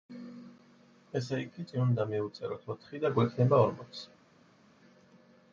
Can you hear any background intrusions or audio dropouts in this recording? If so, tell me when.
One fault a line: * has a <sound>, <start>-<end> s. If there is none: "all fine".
all fine